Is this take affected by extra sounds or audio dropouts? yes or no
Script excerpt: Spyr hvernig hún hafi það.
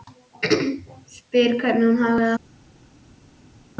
no